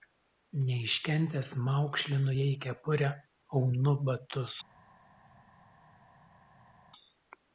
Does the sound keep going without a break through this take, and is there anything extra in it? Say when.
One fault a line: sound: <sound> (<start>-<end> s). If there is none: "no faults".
no faults